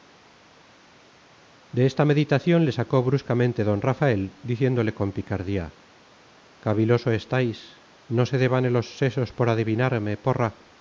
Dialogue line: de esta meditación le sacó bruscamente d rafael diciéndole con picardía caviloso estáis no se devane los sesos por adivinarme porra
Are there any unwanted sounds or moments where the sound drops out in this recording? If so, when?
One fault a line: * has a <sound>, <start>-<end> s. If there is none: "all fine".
all fine